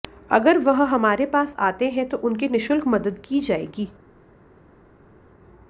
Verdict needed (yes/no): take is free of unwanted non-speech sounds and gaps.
yes